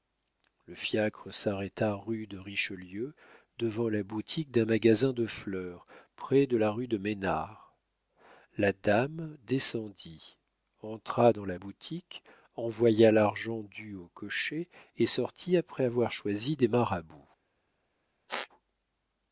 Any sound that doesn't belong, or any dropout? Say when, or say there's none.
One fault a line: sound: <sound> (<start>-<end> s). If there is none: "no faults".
sound: squeak (18.3-18.5 s)